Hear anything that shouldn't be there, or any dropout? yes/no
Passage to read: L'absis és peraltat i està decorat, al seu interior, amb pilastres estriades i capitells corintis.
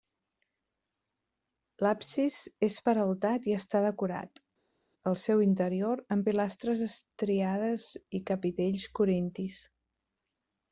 no